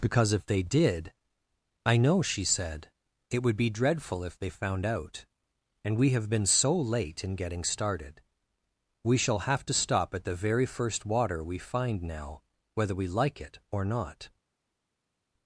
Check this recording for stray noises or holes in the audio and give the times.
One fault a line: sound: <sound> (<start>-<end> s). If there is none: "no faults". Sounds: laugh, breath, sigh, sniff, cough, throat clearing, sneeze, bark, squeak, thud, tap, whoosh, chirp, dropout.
no faults